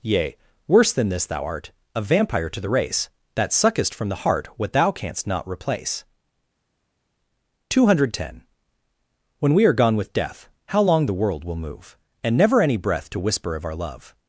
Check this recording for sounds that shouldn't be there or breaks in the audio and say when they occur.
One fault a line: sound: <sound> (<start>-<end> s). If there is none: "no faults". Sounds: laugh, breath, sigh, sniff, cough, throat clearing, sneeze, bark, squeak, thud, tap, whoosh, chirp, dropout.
no faults